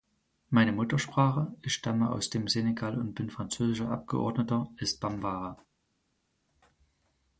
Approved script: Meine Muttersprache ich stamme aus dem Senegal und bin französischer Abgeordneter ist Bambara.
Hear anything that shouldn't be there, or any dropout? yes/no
no